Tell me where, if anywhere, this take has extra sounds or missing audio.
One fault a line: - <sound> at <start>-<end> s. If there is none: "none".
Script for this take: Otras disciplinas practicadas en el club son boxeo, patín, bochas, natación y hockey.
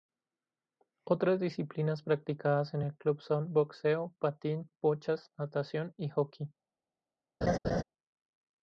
- laugh at 7.4-7.8 s